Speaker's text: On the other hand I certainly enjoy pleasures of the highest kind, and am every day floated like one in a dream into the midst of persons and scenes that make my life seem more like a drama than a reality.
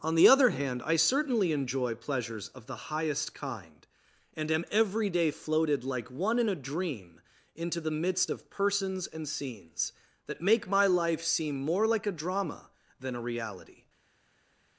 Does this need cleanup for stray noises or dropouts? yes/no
no